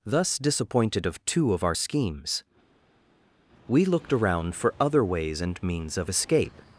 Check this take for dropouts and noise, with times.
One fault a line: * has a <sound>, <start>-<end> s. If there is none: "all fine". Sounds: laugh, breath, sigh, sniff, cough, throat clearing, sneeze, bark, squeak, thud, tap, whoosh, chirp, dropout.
all fine